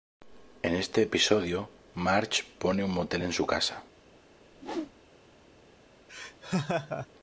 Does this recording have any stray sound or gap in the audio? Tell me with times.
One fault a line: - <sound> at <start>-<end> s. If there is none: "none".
- whoosh at 4.5-4.9 s
- laugh at 6.1-7.1 s